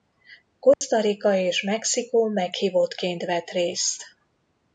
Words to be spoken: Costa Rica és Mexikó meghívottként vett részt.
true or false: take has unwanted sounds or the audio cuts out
true